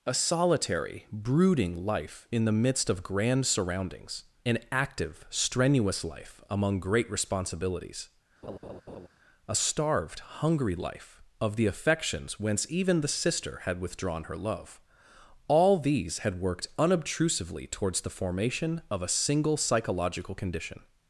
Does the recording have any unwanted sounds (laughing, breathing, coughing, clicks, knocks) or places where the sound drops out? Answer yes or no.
yes